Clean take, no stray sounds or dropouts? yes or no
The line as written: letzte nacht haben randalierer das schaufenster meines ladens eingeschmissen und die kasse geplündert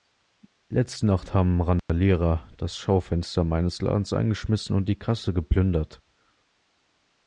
no